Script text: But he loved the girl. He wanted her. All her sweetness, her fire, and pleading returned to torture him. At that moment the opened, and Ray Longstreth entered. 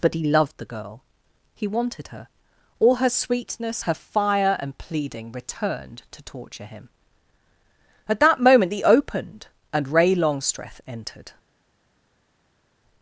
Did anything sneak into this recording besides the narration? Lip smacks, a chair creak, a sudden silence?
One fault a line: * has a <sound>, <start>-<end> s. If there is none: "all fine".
all fine